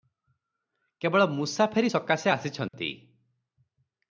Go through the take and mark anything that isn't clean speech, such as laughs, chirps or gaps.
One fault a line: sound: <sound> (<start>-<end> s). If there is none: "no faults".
sound: dropout (2.7-2.7 s)